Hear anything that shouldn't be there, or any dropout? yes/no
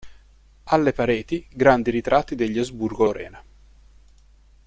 no